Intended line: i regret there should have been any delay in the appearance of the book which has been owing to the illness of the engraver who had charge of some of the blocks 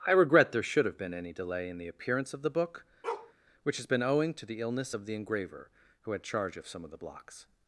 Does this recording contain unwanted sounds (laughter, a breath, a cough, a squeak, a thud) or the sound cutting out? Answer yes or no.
yes